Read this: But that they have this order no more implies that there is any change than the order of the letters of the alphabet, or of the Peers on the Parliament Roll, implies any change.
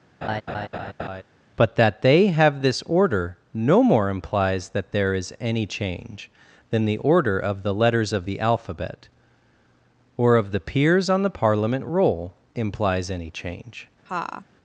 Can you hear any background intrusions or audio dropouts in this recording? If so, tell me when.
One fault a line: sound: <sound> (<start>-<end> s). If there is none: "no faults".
sound: laugh (0.2-1.2 s)
sound: laugh (14.1-14.5 s)